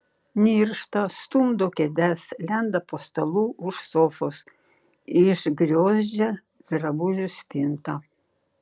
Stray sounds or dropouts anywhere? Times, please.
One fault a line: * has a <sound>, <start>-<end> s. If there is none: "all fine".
all fine